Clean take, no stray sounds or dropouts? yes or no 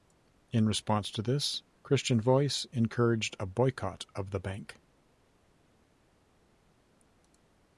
yes